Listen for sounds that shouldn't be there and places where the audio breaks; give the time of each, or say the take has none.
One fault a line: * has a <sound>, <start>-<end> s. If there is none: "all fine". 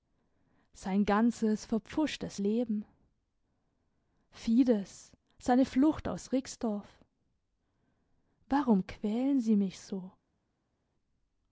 all fine